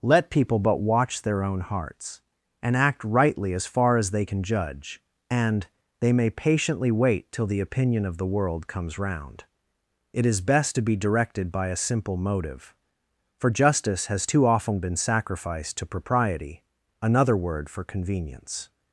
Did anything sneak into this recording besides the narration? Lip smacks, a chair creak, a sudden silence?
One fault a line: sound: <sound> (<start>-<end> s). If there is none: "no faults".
no faults